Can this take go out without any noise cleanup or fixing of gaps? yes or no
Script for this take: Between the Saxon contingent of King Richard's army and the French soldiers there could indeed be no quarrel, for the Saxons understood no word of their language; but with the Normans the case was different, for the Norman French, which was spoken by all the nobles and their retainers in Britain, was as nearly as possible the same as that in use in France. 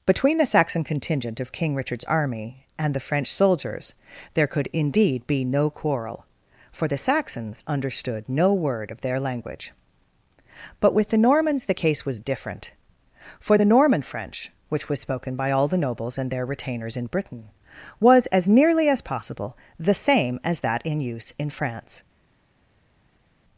yes